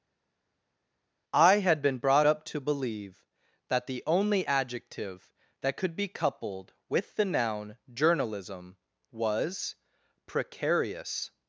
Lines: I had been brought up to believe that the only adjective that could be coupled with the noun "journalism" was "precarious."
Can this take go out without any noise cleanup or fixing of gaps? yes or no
yes